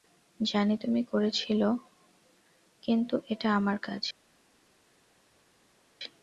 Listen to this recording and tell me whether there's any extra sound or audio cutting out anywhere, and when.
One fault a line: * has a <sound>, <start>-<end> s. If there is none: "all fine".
all fine